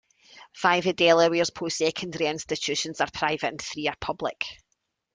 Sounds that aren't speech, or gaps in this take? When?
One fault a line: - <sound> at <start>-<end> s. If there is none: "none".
none